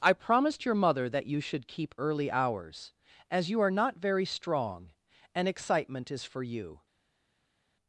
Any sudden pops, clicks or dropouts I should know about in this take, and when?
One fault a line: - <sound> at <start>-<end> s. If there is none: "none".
none